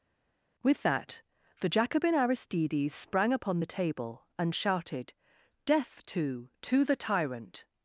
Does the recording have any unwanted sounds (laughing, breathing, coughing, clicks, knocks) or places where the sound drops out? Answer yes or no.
no